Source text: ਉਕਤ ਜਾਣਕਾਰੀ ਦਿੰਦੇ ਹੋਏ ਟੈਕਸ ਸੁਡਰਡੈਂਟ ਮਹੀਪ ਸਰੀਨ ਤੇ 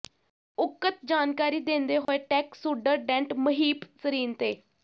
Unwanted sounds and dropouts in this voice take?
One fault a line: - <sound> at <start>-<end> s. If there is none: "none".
- dropout at 2.1-2.1 s